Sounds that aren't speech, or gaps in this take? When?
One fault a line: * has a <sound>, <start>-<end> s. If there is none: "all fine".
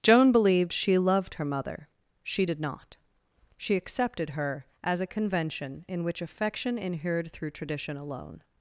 all fine